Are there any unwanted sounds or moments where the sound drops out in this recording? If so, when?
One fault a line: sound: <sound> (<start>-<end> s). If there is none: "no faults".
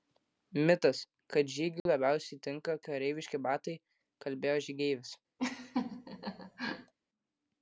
sound: dropout (1.8-1.9 s)
sound: laugh (5.4-6.9 s)